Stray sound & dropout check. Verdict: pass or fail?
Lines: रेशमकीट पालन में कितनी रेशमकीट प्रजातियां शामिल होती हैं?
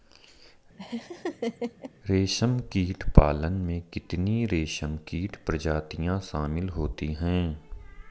fail